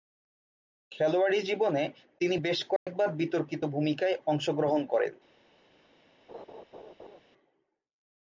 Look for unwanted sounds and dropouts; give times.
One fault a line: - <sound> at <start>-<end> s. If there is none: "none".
- dropout at 2.8-2.9 s
- laugh at 6.3-7.2 s